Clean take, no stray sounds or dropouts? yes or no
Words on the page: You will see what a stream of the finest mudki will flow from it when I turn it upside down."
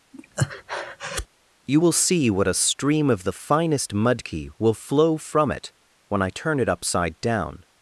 no